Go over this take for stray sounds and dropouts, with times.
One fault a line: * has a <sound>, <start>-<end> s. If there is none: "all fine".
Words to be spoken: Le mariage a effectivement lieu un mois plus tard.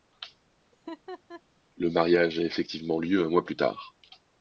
* has a laugh, 0.7-1.4 s